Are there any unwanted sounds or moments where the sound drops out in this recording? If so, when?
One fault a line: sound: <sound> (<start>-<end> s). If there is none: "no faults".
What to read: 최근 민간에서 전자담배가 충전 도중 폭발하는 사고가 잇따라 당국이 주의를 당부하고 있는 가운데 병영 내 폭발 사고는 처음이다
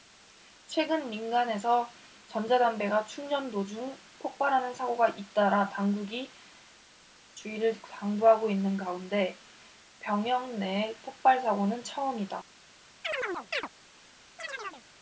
sound: chirp (13.0-13.7 s)
sound: chirp (14.4-14.9 s)